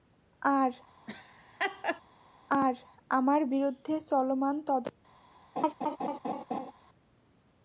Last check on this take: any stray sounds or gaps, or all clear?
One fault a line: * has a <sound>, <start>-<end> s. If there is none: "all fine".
* has a laugh, 1.1-2.0 s
* has a laugh, 5.6-6.7 s